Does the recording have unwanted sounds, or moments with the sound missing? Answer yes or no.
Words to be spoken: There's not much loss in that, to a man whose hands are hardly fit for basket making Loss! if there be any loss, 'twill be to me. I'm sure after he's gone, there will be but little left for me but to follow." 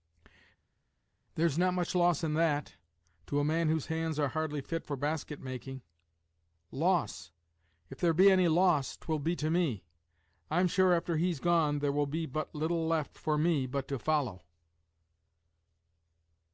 no